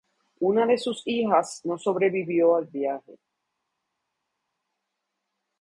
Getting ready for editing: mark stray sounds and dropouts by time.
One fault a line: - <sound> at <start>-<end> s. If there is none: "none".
none